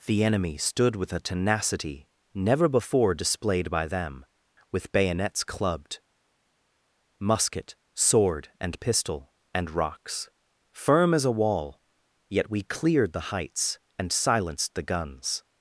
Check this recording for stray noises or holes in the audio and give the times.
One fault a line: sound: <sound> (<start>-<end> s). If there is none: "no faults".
no faults